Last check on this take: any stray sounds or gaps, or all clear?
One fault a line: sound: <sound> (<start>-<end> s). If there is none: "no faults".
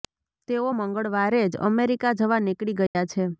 sound: dropout (2.9-3.0 s)